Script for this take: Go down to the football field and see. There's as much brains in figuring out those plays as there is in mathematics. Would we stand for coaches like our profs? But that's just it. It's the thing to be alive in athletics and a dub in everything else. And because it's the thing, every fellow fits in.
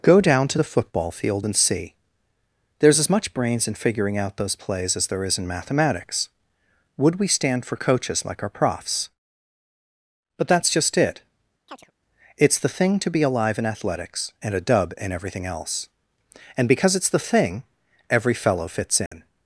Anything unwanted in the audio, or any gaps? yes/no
yes